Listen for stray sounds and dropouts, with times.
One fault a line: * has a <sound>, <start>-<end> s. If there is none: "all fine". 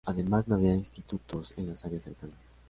all fine